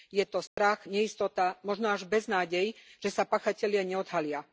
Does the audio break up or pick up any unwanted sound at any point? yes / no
yes